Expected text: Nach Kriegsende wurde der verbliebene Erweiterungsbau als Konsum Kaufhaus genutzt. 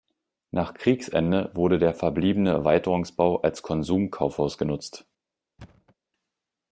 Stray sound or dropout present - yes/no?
yes